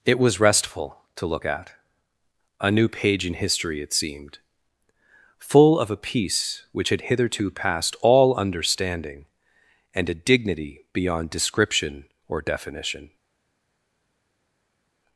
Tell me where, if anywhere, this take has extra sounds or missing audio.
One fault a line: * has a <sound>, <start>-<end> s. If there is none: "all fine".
all fine